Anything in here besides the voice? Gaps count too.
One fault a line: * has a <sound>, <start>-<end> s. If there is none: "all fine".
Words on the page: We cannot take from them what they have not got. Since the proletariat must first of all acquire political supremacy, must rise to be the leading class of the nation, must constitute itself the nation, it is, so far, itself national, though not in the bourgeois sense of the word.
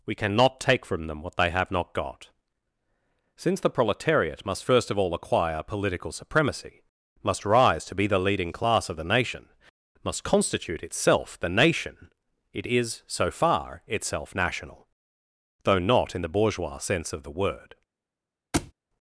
* has a thud, 18.5-18.7 s